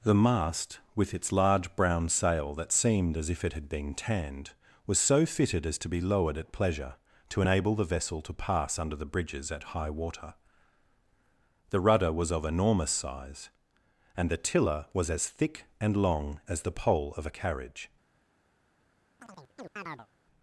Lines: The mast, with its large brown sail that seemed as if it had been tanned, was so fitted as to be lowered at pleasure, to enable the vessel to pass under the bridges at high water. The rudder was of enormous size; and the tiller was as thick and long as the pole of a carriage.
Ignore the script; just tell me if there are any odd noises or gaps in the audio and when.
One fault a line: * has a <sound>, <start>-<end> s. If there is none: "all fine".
* has a chirp, 19.2-20.1 s